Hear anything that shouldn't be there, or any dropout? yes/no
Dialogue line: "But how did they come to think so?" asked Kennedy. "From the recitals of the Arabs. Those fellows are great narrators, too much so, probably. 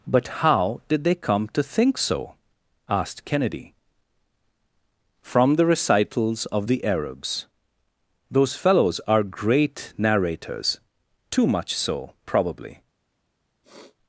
yes